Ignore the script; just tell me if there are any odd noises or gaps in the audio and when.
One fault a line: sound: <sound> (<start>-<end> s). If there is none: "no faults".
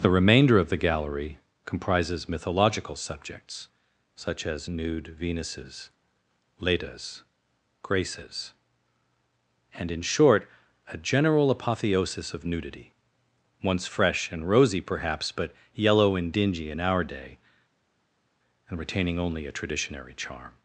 no faults